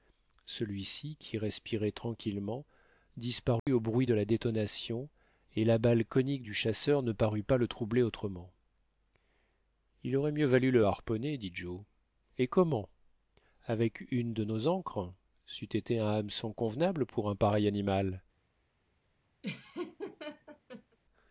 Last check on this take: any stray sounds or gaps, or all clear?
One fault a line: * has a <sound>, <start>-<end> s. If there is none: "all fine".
* has a dropout, 3.6-3.7 s
* has a laugh, 19.4-21.0 s